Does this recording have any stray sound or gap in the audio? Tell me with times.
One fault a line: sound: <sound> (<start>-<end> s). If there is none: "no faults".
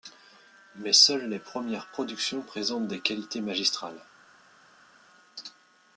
no faults